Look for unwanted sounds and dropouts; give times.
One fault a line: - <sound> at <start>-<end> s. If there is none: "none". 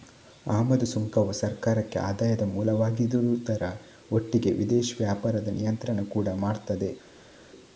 none